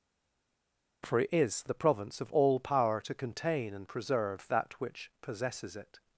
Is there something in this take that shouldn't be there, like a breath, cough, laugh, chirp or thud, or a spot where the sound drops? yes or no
no